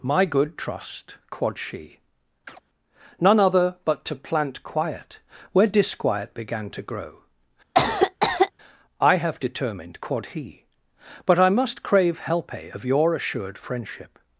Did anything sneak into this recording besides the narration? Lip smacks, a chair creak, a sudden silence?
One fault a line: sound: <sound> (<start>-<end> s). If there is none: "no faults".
sound: chirp (2.5-2.6 s)
sound: cough (7.7-8.5 s)